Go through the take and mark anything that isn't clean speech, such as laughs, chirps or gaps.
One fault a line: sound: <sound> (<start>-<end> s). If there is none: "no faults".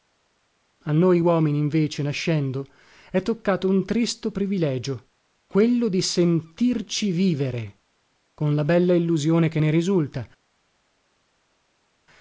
no faults